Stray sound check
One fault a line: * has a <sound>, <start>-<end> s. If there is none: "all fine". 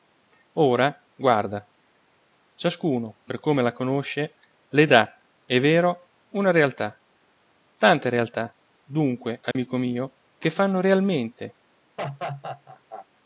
* has a dropout, 9.5-9.6 s
* has a laugh, 12.0-13.1 s